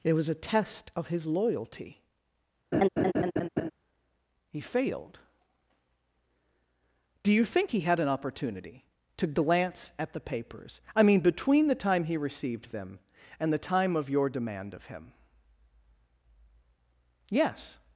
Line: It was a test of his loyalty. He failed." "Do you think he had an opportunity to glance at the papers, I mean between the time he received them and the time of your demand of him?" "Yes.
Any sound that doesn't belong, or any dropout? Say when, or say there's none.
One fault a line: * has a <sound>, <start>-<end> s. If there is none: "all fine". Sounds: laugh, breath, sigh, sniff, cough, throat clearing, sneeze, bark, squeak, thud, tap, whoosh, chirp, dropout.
* has a laugh, 2.7-3.7 s